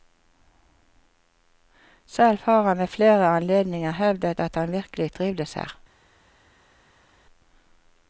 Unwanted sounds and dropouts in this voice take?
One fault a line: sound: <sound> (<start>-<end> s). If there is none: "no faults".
no faults